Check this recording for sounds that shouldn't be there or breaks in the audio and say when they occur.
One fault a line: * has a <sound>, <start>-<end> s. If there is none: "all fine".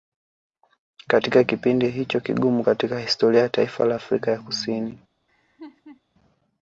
* has a laugh, 5.3-6.0 s